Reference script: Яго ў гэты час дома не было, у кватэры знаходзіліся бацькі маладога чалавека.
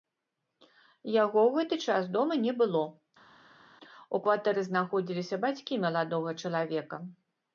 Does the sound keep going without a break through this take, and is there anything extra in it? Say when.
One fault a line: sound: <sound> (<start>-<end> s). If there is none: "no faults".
no faults